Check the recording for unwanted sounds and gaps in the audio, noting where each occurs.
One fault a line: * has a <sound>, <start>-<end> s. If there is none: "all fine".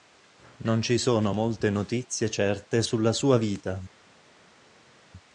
all fine